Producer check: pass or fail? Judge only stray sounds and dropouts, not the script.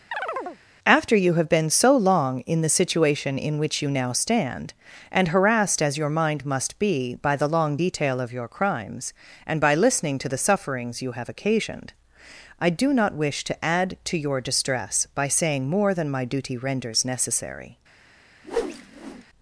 fail